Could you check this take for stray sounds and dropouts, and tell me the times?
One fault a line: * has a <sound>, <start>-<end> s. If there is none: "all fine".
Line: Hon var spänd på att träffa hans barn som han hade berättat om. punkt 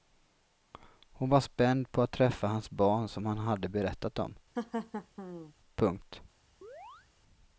* has a laugh, 4.6-5.5 s
* has a chirp, 6.6-7.1 s